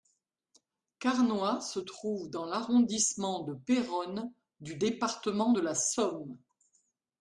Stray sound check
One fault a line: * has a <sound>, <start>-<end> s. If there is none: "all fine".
all fine